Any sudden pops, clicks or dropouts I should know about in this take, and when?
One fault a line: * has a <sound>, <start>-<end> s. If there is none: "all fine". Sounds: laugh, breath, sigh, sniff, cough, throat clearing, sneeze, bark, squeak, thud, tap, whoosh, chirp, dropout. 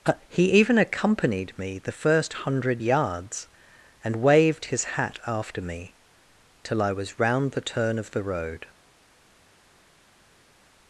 all fine